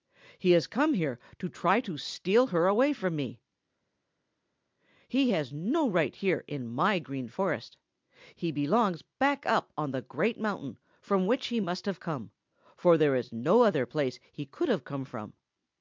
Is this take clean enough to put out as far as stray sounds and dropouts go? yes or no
yes